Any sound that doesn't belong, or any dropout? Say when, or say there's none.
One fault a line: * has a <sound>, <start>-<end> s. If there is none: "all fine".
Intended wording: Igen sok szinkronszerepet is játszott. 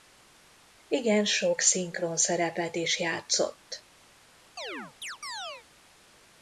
* has a chirp, 4.6-5.7 s